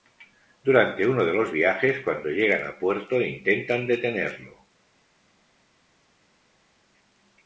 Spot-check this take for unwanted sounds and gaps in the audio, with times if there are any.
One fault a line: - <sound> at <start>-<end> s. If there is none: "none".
none